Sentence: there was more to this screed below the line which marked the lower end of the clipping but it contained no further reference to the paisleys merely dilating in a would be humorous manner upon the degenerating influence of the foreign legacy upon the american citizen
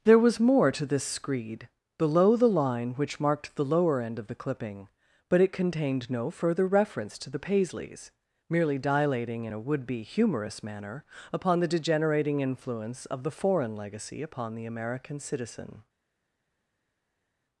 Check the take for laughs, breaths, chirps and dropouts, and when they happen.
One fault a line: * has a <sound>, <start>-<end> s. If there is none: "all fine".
all fine